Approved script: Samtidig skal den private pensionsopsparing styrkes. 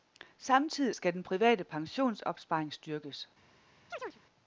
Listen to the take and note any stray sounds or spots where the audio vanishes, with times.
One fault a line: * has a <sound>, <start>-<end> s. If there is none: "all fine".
* has a chirp, 3.9-4.2 s